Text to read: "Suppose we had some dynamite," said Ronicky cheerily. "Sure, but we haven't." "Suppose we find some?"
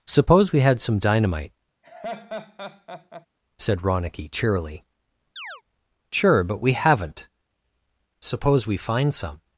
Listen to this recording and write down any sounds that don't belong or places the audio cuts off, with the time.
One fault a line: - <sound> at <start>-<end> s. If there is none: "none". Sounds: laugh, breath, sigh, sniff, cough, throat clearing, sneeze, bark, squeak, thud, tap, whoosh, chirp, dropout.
- laugh at 1.8-3.3 s
- chirp at 5.4-5.6 s